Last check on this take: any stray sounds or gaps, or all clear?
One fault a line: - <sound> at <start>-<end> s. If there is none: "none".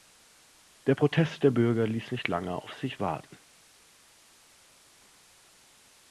none